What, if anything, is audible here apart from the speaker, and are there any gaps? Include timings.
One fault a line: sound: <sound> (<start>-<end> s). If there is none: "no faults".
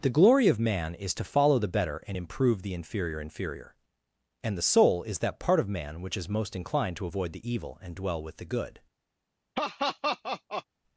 sound: laugh (9.5-10.6 s)